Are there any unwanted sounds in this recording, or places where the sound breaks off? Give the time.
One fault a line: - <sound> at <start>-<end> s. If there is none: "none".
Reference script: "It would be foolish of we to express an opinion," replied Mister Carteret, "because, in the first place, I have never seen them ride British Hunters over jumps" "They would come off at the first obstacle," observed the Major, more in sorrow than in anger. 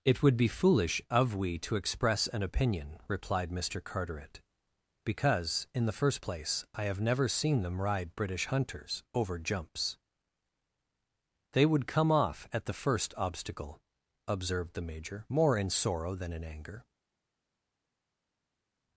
none